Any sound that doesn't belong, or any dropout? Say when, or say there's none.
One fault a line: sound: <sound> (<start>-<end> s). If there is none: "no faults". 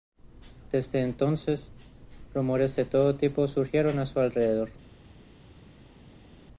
no faults